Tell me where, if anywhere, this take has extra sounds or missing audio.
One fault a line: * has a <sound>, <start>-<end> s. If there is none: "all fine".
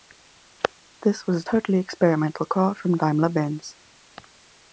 all fine